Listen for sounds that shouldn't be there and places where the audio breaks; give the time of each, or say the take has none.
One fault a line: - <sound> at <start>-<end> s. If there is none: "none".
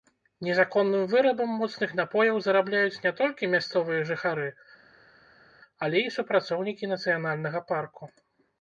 none